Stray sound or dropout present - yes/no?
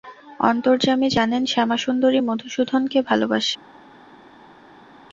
no